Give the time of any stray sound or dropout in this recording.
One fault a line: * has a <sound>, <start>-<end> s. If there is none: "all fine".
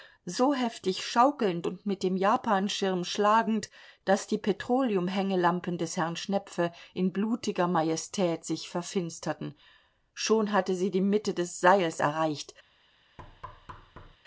* has a thud, 13.2-14.2 s